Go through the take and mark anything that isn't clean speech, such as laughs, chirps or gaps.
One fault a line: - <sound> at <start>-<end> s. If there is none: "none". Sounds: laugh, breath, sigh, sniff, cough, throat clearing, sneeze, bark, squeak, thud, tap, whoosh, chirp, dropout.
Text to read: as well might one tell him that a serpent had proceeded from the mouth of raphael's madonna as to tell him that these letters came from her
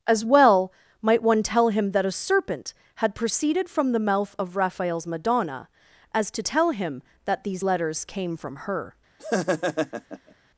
- laugh at 9.2-10.3 s